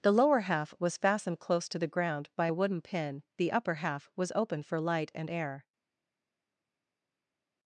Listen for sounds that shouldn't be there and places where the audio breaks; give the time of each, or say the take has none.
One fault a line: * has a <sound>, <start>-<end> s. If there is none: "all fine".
all fine